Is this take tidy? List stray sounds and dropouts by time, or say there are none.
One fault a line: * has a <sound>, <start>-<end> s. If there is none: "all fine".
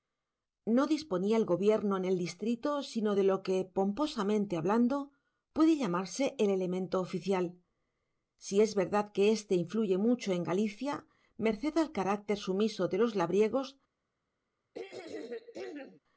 * has a throat clearing, 14.7-16.0 s